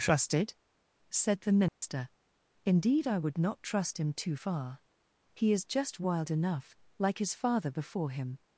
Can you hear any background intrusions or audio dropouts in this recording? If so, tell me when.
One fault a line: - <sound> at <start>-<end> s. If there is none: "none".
- dropout at 1.7-1.8 s